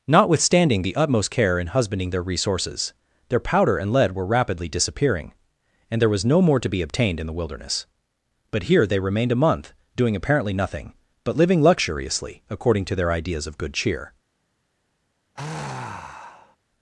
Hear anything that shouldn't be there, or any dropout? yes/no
yes